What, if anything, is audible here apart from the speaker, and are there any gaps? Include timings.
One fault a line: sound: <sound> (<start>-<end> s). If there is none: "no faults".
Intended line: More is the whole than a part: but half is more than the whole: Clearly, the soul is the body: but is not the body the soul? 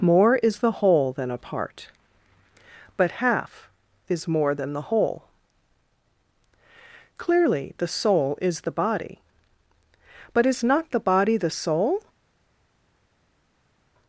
no faults